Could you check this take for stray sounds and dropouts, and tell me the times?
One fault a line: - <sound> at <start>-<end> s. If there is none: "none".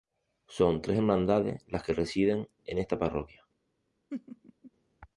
- laugh at 4.1-4.7 s